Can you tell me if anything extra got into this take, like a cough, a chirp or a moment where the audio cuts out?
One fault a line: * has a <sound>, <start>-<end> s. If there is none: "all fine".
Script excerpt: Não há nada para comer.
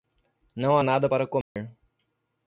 * has a dropout, 1.4-1.6 s